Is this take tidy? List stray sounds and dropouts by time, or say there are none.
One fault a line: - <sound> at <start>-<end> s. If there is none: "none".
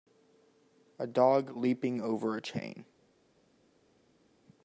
none